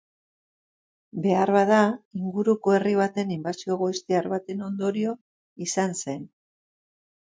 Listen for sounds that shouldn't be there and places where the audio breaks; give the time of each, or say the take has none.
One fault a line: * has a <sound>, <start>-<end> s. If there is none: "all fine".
all fine